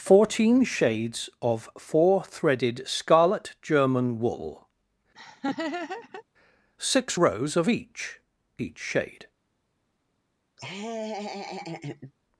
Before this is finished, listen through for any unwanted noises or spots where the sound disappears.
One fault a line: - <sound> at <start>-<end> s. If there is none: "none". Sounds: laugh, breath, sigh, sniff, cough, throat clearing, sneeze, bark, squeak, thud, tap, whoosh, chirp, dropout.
- laugh at 5.1-6.2 s
- laugh at 10.6-12.1 s